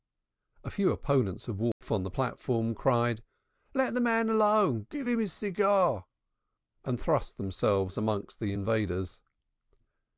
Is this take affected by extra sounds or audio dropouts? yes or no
yes